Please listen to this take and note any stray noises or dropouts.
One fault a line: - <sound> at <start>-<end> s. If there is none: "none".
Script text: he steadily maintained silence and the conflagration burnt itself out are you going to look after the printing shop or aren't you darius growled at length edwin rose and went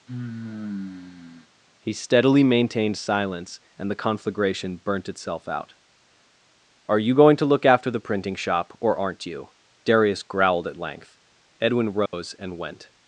- sigh at 0.1-1.5 s
- dropout at 12.1-12.1 s